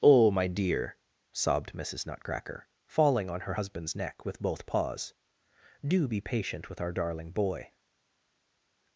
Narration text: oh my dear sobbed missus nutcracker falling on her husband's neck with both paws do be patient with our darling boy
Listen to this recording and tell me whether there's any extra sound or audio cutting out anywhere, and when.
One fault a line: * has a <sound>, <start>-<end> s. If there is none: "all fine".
all fine